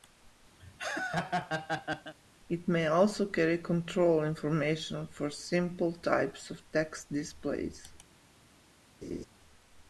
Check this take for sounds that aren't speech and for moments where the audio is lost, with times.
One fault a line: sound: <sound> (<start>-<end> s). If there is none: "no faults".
sound: laugh (0.6-2.1 s)
sound: laugh (9.0-9.3 s)